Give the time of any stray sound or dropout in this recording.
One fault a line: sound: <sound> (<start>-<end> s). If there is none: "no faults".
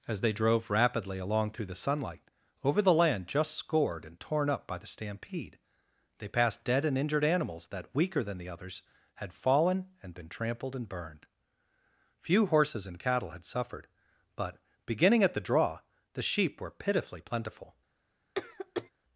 sound: cough (18.3-18.9 s)